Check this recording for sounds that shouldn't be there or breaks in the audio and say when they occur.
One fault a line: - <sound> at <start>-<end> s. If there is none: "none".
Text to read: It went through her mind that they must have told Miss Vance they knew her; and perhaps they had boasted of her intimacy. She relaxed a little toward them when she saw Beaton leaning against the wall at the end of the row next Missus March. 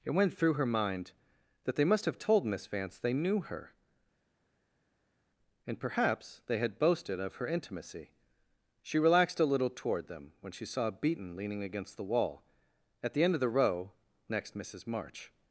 none